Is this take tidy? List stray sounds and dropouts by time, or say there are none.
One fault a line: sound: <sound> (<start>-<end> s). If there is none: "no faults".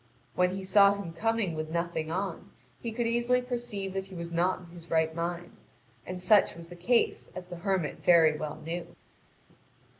no faults